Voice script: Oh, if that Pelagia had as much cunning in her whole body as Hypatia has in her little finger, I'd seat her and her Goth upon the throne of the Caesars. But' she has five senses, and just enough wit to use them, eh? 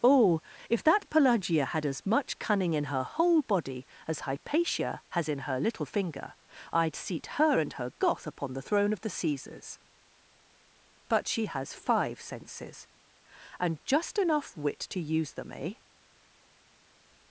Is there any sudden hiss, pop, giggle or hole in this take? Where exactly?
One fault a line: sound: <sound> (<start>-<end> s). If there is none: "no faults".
no faults